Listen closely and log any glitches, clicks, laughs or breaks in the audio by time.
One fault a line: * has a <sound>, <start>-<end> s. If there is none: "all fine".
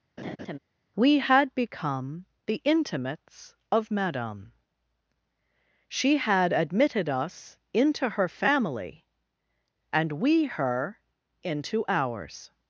* has a laugh, 0.2-0.6 s